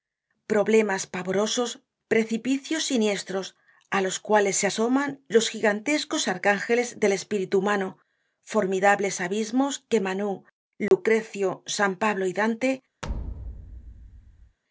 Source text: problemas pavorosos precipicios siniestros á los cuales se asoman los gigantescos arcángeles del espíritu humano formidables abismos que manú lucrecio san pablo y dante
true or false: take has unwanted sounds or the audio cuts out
true